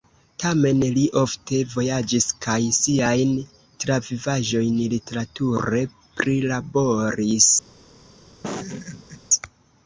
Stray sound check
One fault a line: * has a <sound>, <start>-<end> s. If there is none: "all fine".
* has a laugh, 8.4-9.2 s